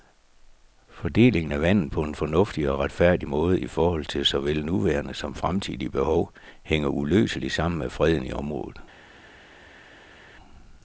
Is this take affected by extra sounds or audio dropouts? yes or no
no